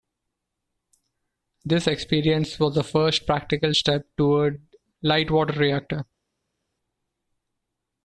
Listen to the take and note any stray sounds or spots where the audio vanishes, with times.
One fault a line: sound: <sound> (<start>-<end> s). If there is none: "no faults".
no faults